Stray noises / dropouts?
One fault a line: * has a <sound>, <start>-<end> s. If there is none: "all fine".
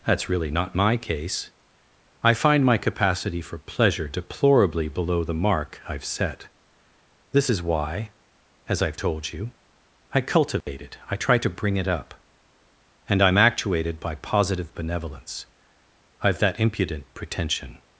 * has a dropout, 10.6-10.7 s